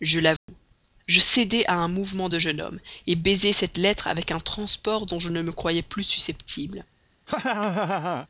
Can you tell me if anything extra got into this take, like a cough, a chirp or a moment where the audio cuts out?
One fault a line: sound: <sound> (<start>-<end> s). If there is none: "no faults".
sound: dropout (0.4-0.5 s)
sound: laugh (7.3-8.3 s)